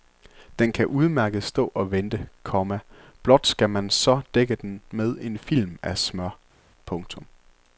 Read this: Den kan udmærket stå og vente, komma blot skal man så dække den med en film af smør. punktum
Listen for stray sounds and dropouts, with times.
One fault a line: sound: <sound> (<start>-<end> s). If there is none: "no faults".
no faults